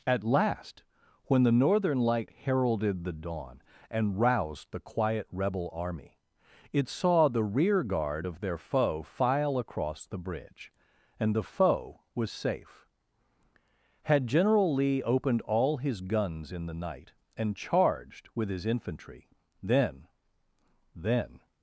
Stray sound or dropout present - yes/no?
no